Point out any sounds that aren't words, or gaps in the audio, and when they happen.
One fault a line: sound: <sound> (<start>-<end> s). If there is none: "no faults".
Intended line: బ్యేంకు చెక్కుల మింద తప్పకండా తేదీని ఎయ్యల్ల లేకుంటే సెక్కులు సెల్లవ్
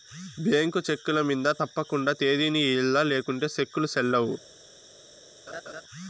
sound: laugh (5.5-5.8 s)